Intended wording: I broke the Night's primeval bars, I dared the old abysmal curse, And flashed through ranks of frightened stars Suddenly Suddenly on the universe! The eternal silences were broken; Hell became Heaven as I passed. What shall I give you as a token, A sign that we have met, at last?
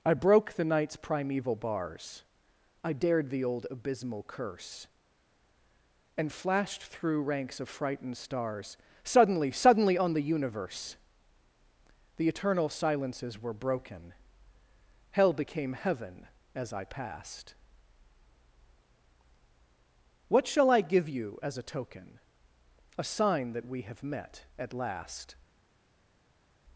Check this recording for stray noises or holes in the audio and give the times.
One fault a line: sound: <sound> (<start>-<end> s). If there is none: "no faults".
no faults